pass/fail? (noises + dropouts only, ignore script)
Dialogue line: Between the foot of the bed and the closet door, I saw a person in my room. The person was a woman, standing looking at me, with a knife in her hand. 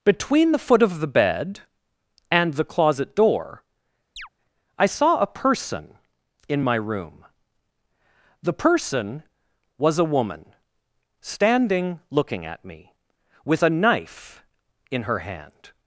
fail